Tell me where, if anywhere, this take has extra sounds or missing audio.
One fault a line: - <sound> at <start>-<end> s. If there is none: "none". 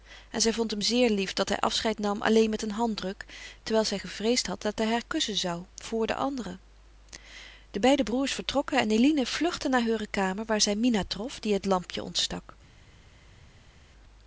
none